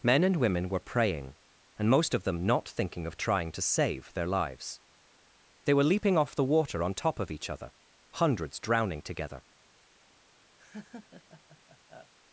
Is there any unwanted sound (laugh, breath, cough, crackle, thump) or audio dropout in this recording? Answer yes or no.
yes